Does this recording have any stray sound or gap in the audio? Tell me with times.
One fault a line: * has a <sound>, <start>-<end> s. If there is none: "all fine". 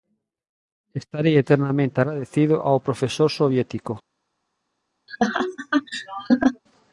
* has a laugh, 5.1-6.6 s